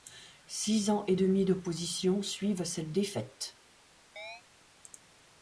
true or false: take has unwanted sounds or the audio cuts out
true